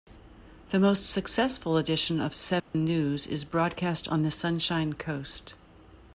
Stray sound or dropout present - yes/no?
yes